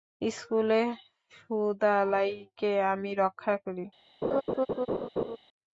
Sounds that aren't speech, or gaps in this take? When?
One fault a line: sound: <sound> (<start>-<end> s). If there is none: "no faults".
sound: laugh (4.2-5.4 s)